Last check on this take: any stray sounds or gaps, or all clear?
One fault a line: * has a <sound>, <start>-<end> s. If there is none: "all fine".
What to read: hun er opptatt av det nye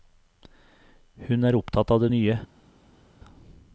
all fine